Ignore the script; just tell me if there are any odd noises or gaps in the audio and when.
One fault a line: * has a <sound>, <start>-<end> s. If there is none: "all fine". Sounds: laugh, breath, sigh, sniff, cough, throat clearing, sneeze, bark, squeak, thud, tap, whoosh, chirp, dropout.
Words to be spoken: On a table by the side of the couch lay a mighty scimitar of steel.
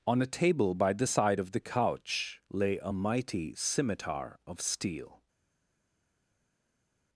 all fine